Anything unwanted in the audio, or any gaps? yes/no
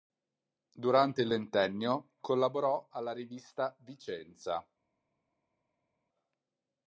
no